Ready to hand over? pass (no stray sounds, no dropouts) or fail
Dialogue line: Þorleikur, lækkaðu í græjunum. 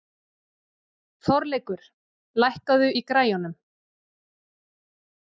pass